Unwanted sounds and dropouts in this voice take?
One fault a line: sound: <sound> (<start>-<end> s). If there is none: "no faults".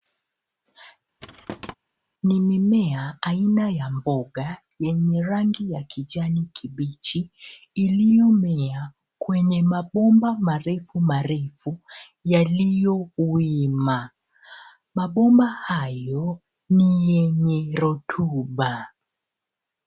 sound: thud (1.2-1.7 s)